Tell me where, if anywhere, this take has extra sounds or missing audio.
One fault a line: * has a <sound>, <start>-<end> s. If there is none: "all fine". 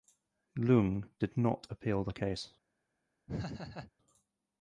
* has a laugh, 3.3-3.9 s